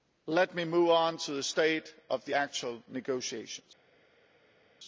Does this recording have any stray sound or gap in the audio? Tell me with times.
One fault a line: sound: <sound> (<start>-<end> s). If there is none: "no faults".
no faults